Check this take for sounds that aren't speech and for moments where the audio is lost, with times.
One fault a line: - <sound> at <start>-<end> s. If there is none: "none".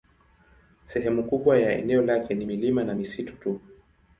none